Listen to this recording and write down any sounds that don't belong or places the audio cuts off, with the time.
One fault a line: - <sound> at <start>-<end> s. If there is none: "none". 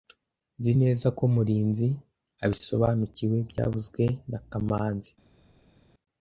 none